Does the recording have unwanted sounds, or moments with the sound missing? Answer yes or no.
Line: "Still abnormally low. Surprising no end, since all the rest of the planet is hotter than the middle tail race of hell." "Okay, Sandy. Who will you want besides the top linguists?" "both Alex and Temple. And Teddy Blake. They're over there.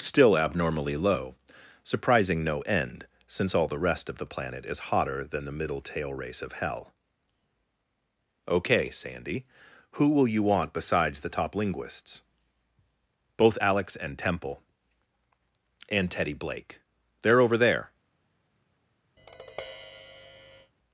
yes